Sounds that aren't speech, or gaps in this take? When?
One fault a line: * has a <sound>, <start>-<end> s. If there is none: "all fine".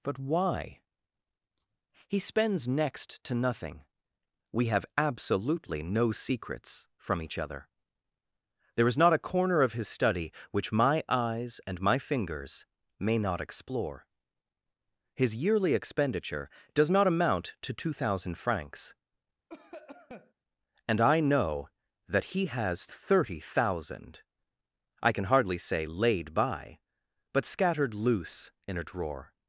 * has a cough, 19.5-20.3 s